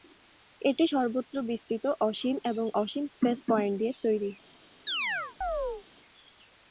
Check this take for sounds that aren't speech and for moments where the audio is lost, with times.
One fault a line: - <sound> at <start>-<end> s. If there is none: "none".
- chirp at 4.9-5.9 s